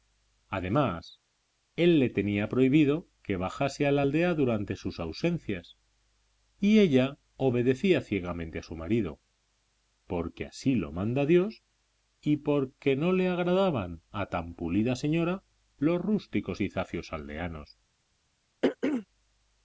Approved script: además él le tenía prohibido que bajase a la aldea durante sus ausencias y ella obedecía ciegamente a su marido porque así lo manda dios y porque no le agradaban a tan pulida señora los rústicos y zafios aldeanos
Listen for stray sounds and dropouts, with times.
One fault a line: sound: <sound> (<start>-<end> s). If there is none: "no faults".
sound: throat clearing (18.6-19.1 s)